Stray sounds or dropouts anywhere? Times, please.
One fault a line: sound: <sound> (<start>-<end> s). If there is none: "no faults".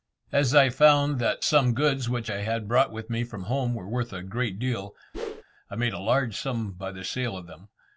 sound: whoosh (5.1-5.4 s)